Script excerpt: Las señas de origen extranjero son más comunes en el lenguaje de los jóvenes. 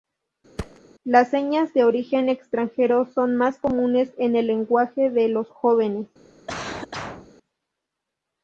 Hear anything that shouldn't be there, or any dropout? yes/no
yes